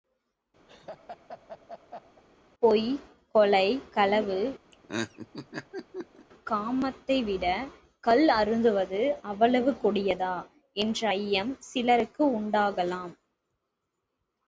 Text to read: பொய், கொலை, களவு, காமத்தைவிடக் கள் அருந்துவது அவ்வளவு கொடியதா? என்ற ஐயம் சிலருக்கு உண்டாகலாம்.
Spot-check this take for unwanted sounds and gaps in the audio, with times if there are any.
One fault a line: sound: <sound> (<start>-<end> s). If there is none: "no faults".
sound: laugh (0.7-2.2 s)
sound: laugh (4.7-6.3 s)